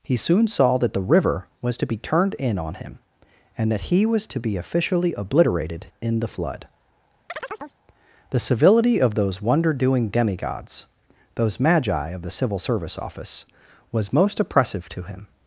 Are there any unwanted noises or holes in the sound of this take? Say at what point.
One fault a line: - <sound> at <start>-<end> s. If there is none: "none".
- chirp at 7.3-7.8 s